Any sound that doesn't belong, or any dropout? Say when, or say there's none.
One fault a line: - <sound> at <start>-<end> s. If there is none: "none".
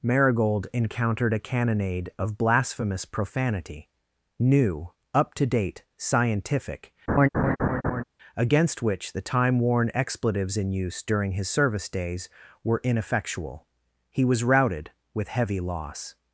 - laugh at 7.1-8.0 s